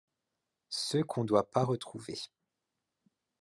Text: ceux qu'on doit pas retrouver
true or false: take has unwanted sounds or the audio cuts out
false